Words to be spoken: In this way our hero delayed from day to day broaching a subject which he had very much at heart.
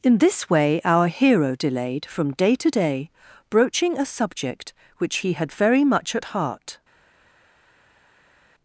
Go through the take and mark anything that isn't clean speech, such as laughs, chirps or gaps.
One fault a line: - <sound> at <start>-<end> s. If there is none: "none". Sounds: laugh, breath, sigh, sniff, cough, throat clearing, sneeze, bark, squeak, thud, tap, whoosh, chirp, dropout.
none